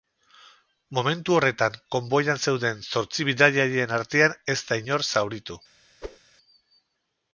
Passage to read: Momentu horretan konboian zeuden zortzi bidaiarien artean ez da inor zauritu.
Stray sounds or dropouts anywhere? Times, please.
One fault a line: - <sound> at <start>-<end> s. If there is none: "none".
- whoosh at 6.0-6.2 s